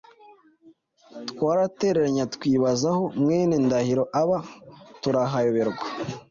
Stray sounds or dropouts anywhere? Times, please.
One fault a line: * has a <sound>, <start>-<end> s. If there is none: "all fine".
all fine